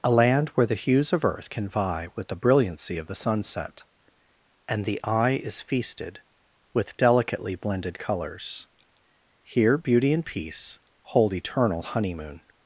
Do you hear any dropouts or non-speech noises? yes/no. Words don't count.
no